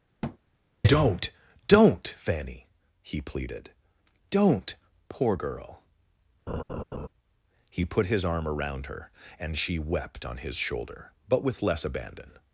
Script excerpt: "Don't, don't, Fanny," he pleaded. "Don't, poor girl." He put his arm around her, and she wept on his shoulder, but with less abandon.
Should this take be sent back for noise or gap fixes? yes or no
yes